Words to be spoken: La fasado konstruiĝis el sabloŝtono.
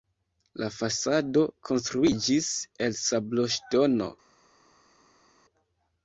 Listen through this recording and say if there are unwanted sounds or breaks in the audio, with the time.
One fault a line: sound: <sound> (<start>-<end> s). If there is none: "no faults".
no faults